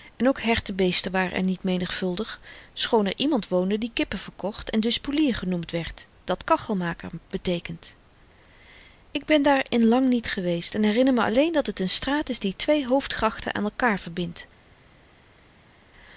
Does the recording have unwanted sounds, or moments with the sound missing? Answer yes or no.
no